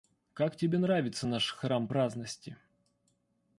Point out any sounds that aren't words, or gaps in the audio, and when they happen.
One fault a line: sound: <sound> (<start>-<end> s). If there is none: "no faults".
no faults